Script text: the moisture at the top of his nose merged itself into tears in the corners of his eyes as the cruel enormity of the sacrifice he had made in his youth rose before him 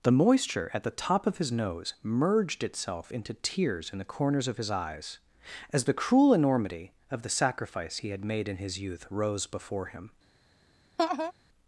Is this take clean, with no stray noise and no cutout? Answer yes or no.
no